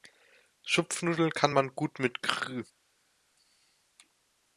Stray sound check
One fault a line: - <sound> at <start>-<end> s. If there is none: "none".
none